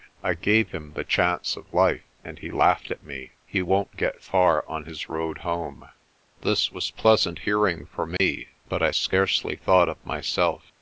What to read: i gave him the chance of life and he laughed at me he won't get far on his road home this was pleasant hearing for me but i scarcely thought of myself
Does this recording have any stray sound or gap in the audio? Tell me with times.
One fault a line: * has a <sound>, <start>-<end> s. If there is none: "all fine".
* has a dropout, 8.2-8.2 s